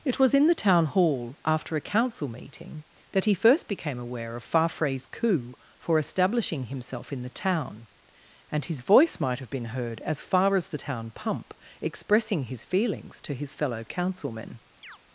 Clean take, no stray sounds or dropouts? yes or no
no